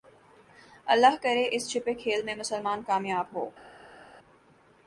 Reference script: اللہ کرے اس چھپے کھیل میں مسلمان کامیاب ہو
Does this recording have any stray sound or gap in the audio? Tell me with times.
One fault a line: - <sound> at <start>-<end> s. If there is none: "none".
none